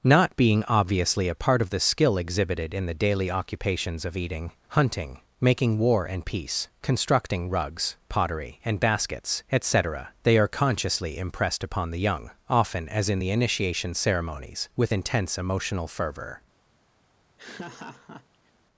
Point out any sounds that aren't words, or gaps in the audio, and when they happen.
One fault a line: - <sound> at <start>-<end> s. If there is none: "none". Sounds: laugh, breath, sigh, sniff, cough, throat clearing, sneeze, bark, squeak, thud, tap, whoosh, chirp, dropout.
- laugh at 17.4-18.5 s